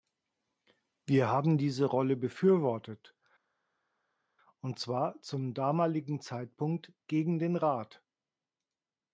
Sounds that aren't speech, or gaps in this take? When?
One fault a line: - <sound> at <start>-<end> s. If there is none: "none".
none